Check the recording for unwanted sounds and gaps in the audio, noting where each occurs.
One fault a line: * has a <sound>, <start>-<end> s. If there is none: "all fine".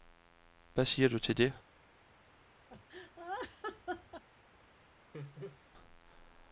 * has a laugh, 2.7-4.2 s
* has a laugh, 5.1-5.6 s